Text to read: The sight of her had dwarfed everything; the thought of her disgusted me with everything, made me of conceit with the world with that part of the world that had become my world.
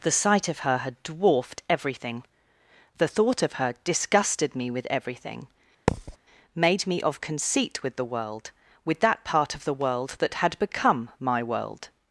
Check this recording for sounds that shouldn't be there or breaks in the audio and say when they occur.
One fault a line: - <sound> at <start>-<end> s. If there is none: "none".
- thud at 5.9-6.2 s